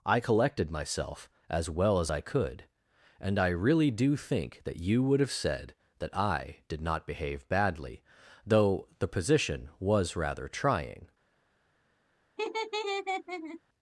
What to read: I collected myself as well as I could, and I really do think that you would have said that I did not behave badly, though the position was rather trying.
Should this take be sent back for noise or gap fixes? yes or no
yes